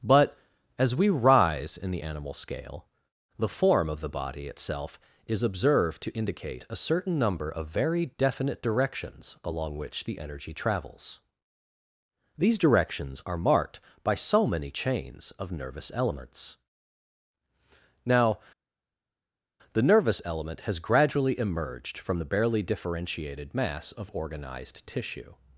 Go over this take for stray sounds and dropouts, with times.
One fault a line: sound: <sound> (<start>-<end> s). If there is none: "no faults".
no faults